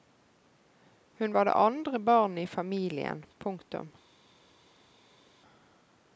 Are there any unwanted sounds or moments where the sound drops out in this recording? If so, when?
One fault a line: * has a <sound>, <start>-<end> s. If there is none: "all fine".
all fine